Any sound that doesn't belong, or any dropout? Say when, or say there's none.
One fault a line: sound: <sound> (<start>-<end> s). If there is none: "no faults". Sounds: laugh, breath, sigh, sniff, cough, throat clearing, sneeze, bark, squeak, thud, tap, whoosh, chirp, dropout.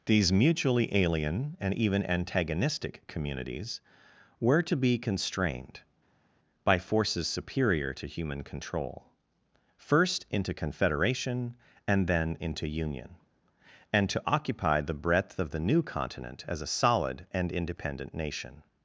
no faults